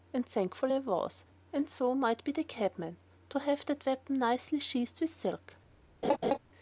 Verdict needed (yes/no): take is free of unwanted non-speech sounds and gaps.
no